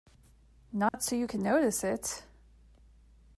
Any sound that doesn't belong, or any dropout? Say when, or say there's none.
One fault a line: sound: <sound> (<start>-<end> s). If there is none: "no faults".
sound: dropout (0.9-0.9 s)